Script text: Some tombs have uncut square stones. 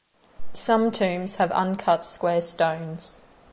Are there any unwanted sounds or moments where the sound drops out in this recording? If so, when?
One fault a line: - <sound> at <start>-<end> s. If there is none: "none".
none